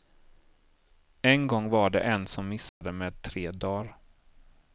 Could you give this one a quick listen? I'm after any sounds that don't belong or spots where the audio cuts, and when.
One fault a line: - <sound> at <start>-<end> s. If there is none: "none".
- dropout at 2.7-2.8 s